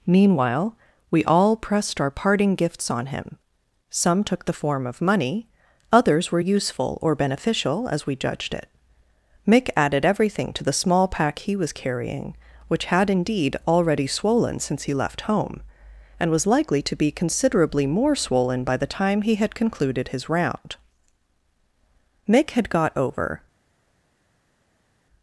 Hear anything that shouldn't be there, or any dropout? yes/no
no